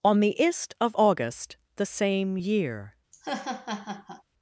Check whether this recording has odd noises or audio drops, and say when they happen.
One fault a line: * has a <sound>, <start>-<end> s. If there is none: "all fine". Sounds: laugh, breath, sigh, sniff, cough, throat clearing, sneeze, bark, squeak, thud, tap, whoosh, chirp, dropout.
* has a laugh, 3.1-4.2 s